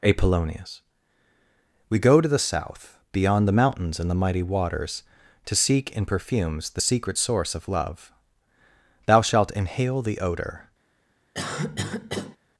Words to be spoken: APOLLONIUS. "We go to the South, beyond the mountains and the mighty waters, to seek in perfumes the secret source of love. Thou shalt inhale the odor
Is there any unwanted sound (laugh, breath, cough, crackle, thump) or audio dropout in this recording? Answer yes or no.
yes